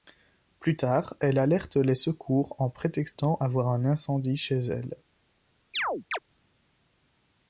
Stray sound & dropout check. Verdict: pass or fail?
fail